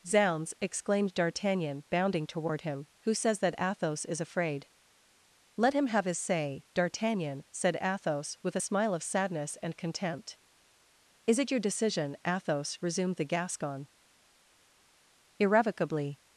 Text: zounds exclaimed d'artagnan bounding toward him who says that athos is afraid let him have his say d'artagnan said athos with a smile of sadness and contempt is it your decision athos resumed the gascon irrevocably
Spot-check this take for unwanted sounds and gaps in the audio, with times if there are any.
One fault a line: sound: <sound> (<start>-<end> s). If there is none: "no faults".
no faults